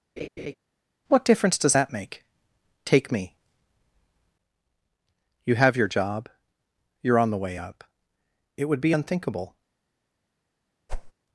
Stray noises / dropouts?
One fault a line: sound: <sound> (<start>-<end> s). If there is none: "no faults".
sound: laugh (0.2-0.5 s)
sound: whoosh (10.9-11.1 s)